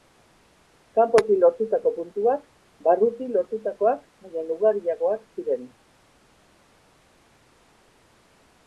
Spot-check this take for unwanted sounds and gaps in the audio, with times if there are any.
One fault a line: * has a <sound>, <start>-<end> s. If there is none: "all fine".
all fine